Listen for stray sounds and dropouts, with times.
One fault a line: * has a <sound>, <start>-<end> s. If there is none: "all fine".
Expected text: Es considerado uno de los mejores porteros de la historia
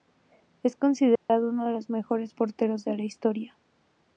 * has a dropout, 1.2-1.3 s